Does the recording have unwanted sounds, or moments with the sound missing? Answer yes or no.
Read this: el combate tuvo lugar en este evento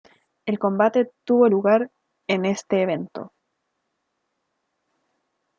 no